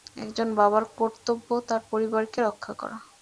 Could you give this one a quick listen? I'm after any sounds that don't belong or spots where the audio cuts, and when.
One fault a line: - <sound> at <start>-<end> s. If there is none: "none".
none